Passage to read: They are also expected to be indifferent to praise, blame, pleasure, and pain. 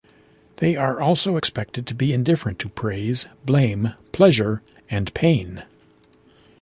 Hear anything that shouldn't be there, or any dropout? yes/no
no